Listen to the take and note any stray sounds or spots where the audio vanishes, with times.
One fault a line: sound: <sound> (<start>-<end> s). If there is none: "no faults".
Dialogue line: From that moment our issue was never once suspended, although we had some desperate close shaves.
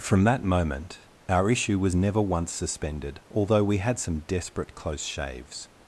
no faults